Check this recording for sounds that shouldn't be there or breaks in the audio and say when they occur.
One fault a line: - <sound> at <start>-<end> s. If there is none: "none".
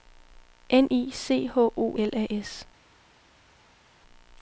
none